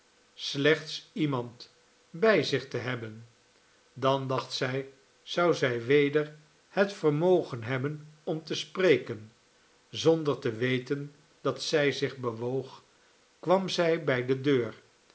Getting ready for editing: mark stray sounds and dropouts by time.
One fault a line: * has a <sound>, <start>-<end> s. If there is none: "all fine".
all fine